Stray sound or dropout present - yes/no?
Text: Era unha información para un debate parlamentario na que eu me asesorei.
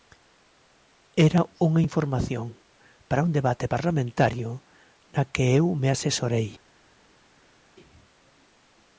no